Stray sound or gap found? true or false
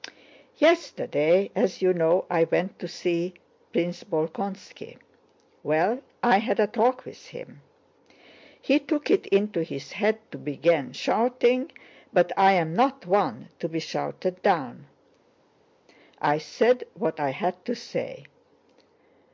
false